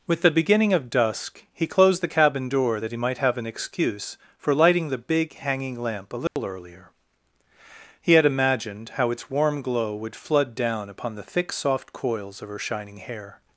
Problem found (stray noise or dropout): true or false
true